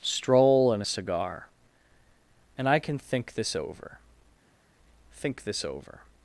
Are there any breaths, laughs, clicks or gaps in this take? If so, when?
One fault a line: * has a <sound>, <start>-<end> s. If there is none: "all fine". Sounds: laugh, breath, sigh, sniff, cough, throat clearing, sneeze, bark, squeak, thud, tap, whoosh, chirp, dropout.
all fine